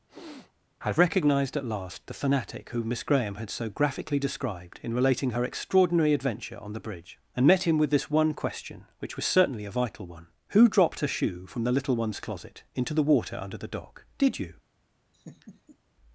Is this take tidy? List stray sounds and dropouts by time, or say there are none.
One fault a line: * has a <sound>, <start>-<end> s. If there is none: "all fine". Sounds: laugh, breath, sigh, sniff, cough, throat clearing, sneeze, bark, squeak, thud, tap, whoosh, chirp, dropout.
* has a sniff, 0.1-0.5 s
* has a laugh, 15.1-15.8 s